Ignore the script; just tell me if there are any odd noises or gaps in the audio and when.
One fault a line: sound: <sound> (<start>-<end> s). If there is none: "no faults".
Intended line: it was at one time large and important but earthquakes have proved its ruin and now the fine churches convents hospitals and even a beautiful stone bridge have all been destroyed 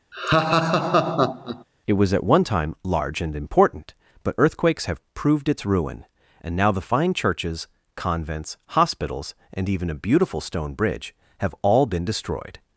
sound: laugh (0.1-1.6 s)